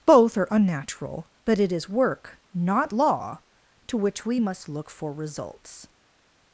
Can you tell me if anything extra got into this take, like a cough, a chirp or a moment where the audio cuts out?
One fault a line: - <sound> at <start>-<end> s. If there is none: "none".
none